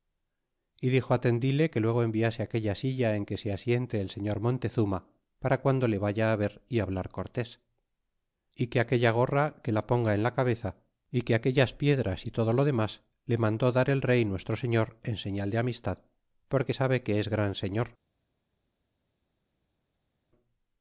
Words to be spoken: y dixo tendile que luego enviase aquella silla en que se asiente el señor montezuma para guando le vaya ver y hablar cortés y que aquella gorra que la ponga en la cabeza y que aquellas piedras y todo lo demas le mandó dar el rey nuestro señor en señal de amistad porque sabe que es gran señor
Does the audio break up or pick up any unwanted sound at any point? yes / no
no